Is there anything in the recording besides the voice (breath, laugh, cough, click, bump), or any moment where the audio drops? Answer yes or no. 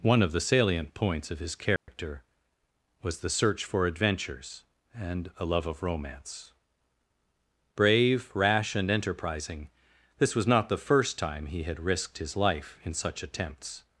yes